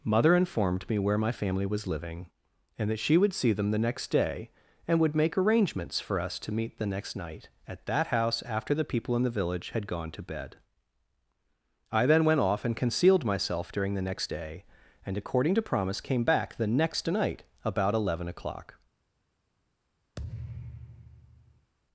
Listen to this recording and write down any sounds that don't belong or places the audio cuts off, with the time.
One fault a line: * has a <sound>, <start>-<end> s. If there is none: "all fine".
* has a thud, 20.2-21.7 s